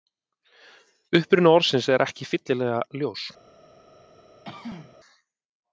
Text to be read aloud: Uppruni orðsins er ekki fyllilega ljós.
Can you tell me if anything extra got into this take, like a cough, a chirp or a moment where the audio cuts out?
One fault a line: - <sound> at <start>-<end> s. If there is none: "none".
- throat clearing at 4.5-5.0 s